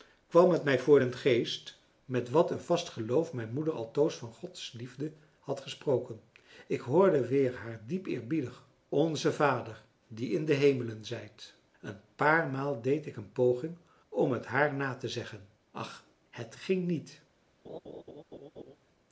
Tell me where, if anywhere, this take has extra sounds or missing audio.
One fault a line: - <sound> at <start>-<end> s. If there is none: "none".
- laugh at 17.6-18.8 s